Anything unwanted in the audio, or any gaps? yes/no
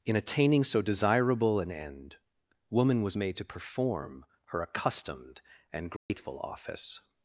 yes